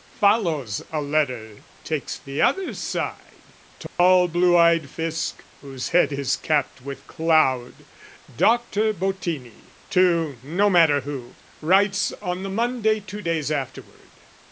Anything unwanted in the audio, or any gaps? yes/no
yes